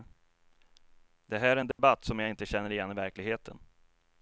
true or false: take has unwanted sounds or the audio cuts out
true